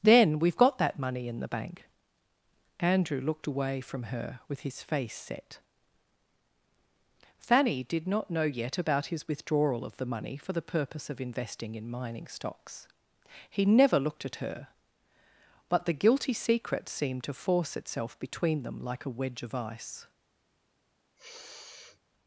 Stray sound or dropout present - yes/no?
yes